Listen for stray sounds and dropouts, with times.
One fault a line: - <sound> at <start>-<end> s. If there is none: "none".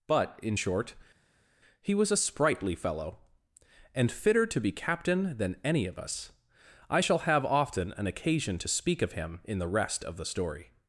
none